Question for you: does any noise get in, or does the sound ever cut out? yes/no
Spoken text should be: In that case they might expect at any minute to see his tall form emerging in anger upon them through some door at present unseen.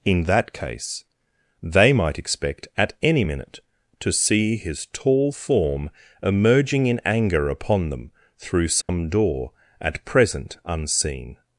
yes